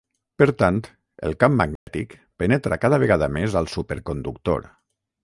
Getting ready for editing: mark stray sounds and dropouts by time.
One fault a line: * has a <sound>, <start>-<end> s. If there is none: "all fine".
* has a dropout, 1.8-1.9 s